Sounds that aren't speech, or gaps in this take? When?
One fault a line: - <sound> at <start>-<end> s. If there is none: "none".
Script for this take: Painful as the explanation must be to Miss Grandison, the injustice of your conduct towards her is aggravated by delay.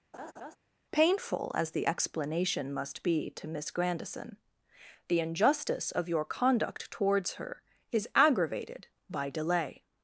- laugh at 0.1-0.6 s